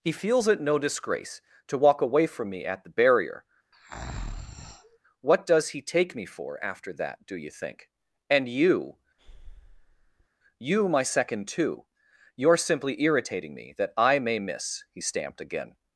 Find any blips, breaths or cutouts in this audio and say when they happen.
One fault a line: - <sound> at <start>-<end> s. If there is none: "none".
- breath at 3.7-5.0 s
- breath at 9.2-10.3 s